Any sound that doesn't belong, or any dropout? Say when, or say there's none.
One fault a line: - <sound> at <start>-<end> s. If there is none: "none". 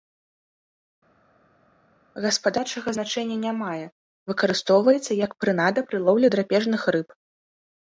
none